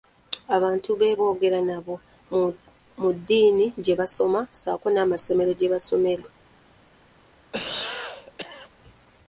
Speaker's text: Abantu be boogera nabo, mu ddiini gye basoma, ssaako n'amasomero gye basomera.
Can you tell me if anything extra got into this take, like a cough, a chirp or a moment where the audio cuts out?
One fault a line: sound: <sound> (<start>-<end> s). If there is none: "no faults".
sound: cough (7.5-8.7 s)